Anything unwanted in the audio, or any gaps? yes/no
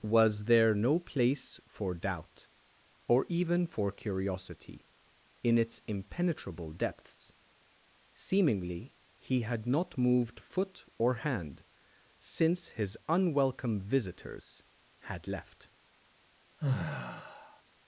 yes